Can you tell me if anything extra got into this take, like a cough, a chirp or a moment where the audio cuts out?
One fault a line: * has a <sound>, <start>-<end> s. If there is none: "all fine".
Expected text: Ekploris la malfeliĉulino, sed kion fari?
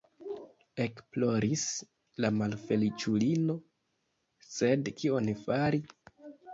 all fine